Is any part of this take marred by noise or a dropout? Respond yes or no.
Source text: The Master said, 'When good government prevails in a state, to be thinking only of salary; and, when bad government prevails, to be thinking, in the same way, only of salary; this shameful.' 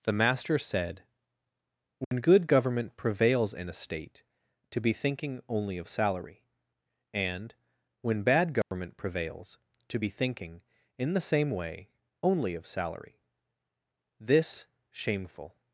yes